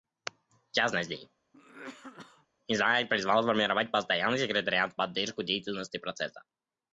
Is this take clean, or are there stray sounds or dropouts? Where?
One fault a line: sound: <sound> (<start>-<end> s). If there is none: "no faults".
sound: cough (1.5-2.5 s)